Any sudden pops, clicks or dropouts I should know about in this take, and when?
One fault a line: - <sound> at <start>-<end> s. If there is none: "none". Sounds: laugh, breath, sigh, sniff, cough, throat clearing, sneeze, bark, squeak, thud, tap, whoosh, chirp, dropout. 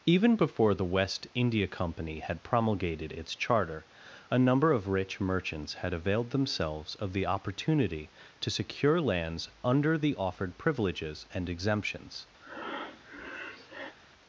- breath at 12.4-14.0 s